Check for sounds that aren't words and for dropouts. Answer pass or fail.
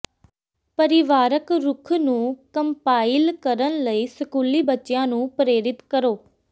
pass